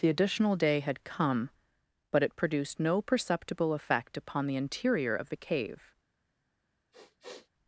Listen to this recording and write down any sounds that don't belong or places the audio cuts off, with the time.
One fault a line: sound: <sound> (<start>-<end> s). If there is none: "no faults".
sound: sniff (6.9-7.5 s)